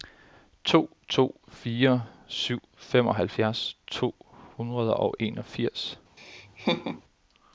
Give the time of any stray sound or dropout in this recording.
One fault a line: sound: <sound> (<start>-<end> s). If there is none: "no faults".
sound: laugh (6.2-7.0 s)